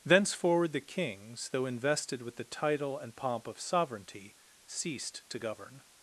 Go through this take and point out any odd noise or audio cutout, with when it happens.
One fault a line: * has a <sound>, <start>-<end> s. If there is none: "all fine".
all fine